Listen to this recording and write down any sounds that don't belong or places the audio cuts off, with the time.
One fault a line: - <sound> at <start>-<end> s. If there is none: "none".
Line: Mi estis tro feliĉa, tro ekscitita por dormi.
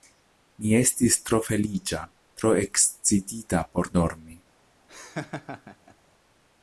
- laugh at 4.9-6.0 s